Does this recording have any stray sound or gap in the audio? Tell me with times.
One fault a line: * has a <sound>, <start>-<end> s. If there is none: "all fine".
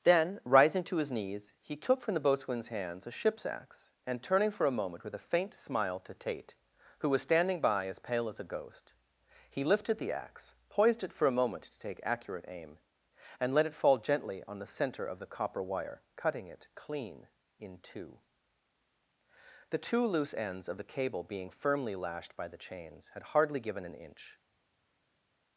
all fine